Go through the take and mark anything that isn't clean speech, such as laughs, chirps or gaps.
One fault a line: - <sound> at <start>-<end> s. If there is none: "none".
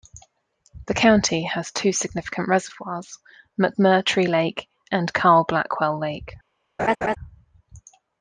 - laugh at 6.8-7.2 s